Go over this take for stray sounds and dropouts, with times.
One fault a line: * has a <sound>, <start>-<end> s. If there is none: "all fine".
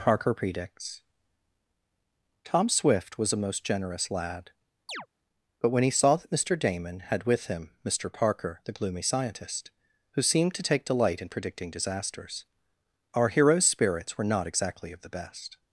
* has a chirp, 4.9-5.1 s